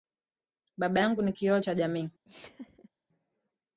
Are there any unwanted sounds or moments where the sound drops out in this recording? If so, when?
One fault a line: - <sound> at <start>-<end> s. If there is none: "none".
- laugh at 2.2-2.9 s